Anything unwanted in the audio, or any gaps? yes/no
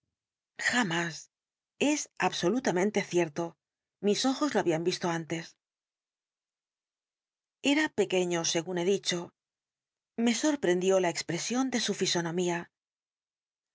no